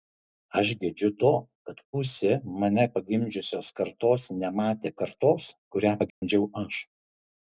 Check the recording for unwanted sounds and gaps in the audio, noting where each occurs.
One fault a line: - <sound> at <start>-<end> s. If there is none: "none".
- dropout at 6.1-6.2 s